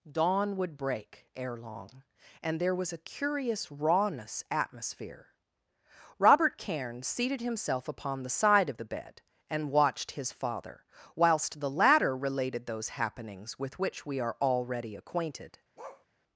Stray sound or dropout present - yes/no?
yes